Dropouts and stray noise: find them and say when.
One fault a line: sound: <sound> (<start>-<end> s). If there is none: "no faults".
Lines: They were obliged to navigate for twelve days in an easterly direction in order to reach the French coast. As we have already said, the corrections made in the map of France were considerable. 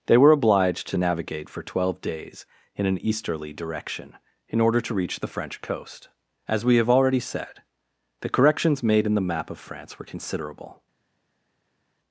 no faults